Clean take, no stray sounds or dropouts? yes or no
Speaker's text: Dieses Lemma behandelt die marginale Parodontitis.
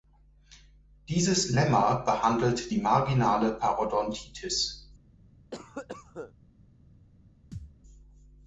no